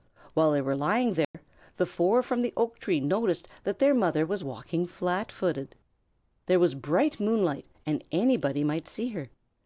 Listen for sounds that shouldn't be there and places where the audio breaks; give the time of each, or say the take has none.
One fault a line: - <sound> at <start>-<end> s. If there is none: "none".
- dropout at 1.2-1.3 s